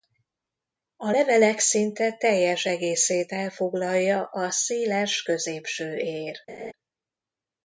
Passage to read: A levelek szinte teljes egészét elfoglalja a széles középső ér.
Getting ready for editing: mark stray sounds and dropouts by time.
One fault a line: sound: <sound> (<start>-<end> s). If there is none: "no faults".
sound: laugh (6.5-6.7 s)